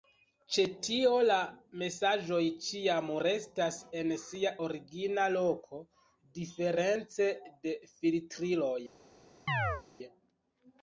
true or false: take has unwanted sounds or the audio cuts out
true